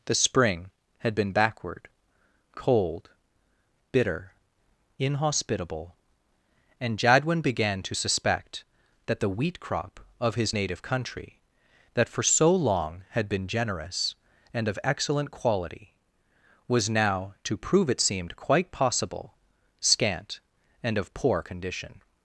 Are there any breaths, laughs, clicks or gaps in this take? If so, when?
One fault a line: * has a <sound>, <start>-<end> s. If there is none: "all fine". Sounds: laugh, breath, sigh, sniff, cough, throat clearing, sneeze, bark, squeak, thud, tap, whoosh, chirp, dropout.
all fine